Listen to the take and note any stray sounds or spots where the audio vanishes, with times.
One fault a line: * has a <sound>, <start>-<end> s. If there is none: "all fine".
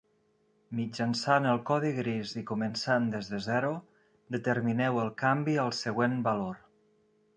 all fine